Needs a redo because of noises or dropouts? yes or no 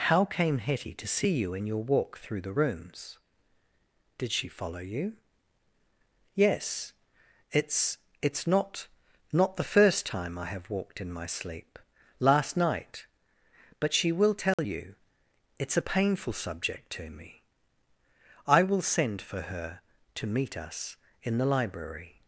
yes